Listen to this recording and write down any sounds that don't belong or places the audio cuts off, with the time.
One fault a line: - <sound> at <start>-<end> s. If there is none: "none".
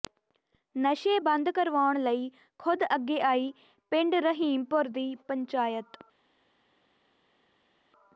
none